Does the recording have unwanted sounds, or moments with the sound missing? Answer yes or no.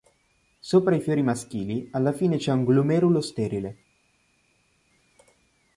no